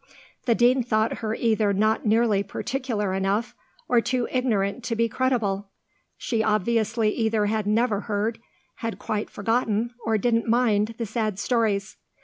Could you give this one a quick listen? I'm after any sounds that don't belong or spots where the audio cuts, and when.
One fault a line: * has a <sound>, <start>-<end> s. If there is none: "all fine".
all fine